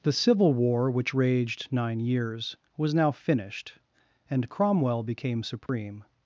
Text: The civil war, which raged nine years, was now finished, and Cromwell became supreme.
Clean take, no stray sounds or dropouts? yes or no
no